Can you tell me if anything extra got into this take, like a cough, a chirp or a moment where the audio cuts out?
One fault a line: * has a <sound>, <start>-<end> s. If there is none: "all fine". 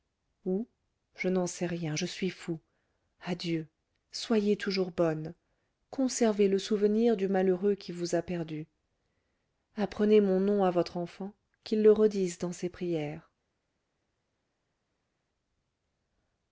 all fine